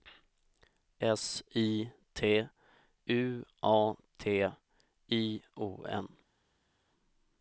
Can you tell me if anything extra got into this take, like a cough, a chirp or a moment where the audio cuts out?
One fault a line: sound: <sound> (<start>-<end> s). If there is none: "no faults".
no faults